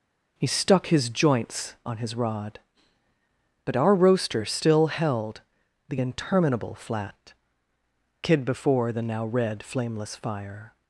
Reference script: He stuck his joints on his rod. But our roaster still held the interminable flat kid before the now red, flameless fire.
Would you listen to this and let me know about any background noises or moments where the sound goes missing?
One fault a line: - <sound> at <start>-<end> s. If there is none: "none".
none